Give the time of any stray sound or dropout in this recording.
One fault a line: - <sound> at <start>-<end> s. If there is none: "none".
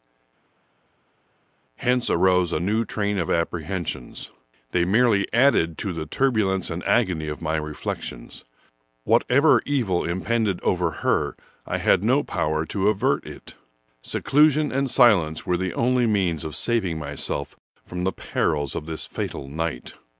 none